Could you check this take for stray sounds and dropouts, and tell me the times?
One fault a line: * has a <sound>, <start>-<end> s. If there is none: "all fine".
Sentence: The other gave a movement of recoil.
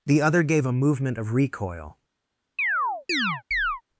* has a chirp, 2.6-3.8 s